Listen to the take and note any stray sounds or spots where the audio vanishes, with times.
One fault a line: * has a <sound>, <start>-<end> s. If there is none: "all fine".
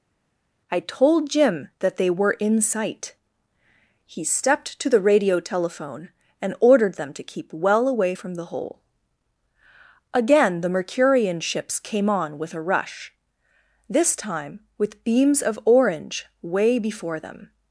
all fine